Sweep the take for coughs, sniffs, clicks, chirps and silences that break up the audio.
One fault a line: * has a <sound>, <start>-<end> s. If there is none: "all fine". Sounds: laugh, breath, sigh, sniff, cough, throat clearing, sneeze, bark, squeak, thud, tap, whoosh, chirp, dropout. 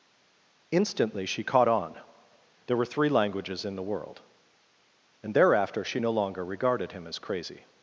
all fine